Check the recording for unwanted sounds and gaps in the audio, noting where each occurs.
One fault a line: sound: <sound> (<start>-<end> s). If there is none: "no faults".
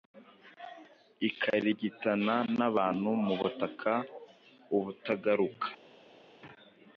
no faults